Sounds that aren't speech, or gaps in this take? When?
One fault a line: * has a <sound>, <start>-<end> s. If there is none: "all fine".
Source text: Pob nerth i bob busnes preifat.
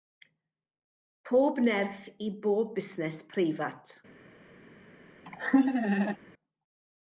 * has a laugh, 5.3-6.2 s